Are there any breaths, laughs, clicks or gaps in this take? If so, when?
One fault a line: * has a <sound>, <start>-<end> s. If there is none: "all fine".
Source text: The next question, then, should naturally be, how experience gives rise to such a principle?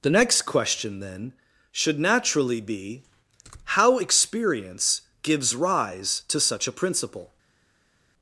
all fine